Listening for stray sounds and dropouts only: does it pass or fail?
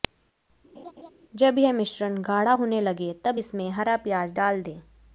fail